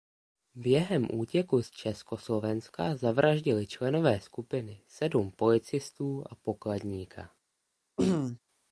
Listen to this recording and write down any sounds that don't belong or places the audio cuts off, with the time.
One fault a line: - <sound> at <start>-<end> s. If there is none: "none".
- throat clearing at 8.0-8.4 s